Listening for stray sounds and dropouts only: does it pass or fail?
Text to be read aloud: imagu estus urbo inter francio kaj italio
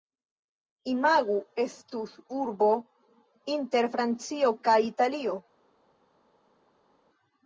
pass